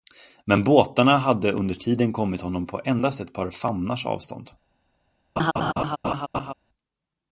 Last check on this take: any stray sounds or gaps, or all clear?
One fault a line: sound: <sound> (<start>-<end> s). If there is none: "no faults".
sound: laugh (5.4-6.5 s)